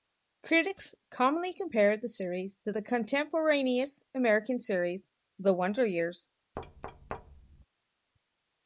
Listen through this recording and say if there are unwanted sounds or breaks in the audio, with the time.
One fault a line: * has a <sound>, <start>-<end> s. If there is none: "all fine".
* has a thud, 6.6-7.7 s